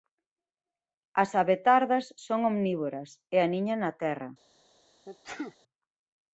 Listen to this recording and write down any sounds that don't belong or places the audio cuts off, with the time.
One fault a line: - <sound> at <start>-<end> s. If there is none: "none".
- sneeze at 5.1-5.6 s